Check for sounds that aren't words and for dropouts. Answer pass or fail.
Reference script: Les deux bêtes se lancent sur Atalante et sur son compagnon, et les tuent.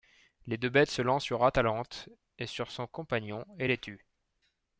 pass